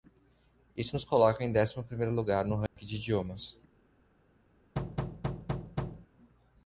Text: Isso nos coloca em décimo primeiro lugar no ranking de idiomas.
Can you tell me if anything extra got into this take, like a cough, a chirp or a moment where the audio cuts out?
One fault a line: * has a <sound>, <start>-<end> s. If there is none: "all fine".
* has a dropout, 2.7-2.8 s
* has a thud, 4.8-6.1 s